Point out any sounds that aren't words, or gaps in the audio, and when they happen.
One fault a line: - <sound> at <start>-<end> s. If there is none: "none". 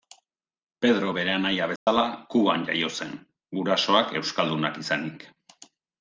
- dropout at 1.8-1.9 s